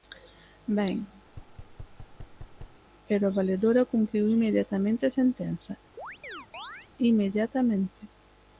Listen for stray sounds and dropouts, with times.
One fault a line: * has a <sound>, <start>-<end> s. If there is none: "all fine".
* has a thud, 1.3-2.8 s
* has a chirp, 6.0-6.9 s